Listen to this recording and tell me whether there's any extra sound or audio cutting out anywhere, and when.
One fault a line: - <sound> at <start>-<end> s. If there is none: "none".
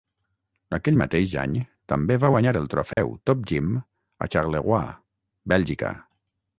- dropout at 2.9-3.0 s